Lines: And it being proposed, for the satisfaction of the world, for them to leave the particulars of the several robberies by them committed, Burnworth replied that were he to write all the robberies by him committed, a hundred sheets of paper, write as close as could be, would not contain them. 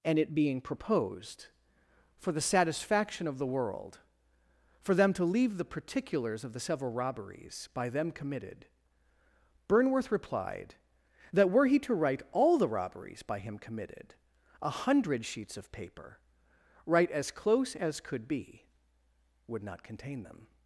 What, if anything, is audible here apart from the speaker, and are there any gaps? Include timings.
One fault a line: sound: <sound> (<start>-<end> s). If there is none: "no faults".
no faults